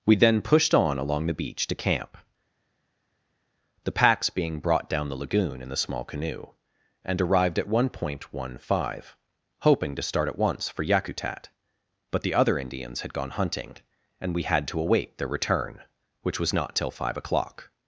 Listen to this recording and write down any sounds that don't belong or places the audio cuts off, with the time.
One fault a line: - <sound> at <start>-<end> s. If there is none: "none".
none